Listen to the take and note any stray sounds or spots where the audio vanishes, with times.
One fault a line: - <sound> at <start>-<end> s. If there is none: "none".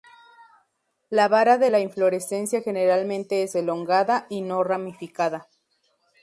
none